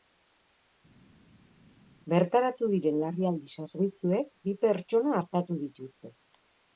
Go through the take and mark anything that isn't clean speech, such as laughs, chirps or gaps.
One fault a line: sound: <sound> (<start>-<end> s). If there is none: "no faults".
no faults